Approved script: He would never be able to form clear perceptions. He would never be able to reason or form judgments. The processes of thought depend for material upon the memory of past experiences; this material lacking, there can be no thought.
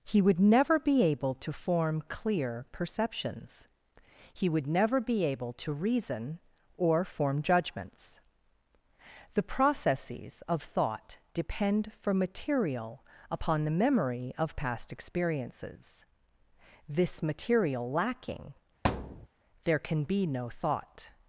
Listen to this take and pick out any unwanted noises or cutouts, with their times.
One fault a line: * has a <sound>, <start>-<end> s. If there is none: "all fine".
* has a thud, 18.8-19.3 s